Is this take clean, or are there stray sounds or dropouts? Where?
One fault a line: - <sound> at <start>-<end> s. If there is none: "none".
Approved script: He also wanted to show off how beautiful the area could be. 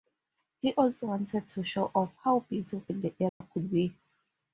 - dropout at 3.3-3.4 s